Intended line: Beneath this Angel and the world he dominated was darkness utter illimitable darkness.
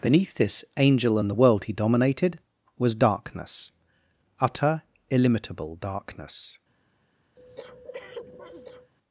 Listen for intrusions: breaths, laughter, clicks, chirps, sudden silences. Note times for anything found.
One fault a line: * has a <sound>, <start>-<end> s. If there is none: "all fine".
* has a breath, 7.4-8.9 s